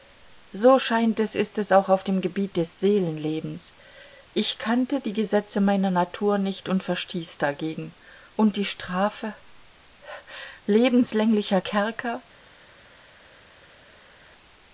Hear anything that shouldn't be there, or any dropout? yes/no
no